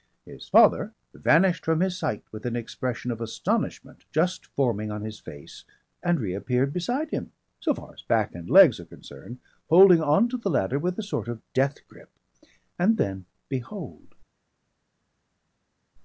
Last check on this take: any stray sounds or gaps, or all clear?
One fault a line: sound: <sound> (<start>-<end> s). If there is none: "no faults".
no faults